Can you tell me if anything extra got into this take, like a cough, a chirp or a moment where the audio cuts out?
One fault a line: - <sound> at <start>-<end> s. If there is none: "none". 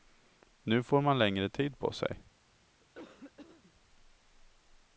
- cough at 2.8-3.7 s